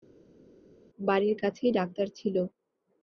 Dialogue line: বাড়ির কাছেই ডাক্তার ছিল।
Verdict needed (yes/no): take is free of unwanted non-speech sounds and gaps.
yes